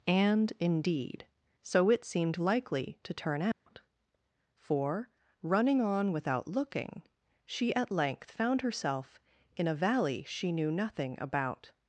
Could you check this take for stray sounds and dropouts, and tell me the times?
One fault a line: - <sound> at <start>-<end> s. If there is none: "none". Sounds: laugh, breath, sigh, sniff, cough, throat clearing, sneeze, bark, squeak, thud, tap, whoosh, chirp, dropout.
- dropout at 3.5-3.7 s